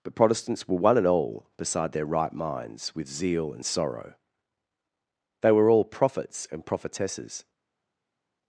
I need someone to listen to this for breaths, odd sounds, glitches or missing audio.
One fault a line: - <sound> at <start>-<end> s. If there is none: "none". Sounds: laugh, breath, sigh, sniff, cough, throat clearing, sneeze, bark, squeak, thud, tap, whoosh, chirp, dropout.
none